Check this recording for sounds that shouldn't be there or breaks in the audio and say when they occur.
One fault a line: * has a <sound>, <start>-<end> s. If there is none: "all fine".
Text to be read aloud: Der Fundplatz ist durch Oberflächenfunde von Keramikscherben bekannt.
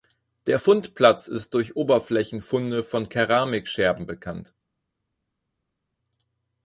all fine